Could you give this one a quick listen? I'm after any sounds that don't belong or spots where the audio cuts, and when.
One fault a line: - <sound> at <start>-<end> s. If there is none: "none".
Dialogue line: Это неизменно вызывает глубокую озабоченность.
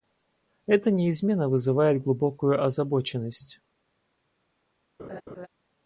- laugh at 5.0-5.5 s